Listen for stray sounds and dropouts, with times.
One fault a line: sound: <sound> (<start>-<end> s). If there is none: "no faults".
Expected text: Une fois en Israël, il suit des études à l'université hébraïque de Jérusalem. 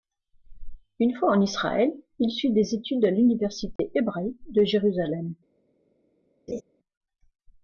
sound: dropout (3.8-3.8 s)
sound: laugh (6.5-6.6 s)